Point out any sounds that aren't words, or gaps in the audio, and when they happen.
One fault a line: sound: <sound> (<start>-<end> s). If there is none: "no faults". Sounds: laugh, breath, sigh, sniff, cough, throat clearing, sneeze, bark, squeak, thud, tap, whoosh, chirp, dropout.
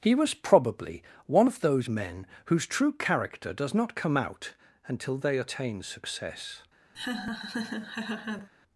sound: laugh (6.9-8.5 s)